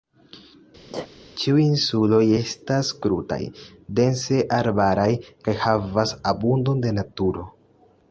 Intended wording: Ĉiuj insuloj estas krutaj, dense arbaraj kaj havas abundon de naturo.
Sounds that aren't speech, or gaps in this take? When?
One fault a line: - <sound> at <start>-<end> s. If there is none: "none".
- sneeze at 0.9-1.1 s